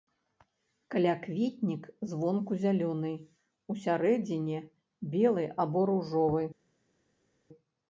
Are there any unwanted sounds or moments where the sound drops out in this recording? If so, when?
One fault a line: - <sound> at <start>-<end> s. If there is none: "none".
none